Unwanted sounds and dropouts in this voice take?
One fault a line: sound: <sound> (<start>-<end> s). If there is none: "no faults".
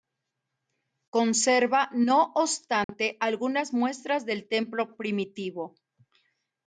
sound: dropout (2.8-2.9 s)